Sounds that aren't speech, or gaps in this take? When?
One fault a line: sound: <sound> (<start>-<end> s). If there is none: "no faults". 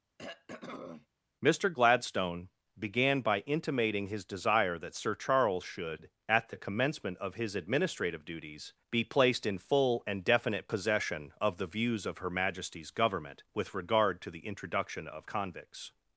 sound: throat clearing (0.2-1.1 s)